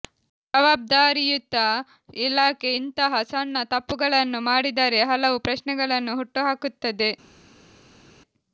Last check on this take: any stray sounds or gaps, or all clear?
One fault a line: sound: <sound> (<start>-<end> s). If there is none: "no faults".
no faults